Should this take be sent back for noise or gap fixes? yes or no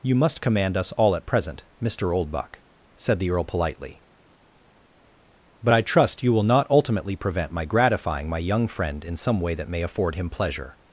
no